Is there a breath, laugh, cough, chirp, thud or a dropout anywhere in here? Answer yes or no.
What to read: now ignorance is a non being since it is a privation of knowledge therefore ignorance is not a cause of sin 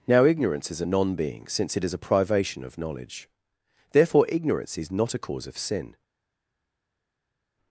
no